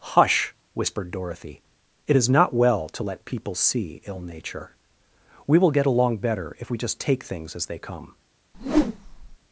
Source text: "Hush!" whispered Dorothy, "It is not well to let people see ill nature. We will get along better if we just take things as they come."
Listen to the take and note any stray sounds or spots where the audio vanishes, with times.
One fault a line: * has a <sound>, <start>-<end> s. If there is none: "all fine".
* has a whoosh, 8.5-9.4 s